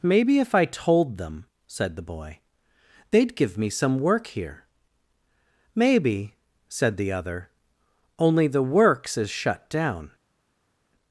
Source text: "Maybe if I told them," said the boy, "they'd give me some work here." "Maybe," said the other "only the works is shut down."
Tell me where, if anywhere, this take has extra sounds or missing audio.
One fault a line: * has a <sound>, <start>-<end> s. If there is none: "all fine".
all fine